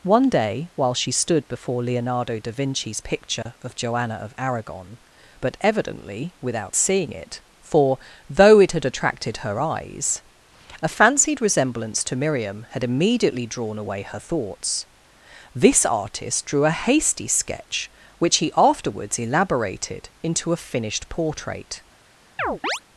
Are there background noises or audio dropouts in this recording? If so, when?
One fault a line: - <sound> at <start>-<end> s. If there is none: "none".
- dropout at 3.4-3.5 s
- chirp at 22.4-22.8 s